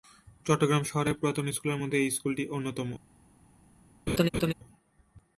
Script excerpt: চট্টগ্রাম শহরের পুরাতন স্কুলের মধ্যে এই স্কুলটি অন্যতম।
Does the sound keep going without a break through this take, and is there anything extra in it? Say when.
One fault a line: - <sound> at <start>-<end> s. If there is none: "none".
- laugh at 4.1-4.5 s